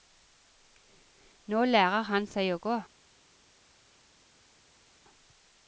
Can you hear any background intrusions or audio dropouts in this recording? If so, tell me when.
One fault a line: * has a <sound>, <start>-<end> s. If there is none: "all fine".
all fine